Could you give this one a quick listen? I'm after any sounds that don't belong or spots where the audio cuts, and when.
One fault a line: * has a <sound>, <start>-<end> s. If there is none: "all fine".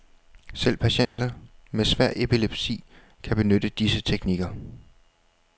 * has a dropout, 1.1-1.2 s